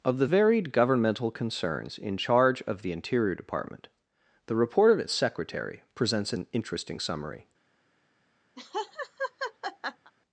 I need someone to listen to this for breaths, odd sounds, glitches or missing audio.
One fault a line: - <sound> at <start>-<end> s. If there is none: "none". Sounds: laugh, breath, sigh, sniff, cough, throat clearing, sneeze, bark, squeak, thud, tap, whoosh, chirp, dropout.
- laugh at 8.6-10.1 s